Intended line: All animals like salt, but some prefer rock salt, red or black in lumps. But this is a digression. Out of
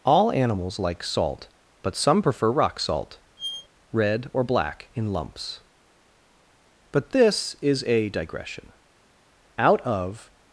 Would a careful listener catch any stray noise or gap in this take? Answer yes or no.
yes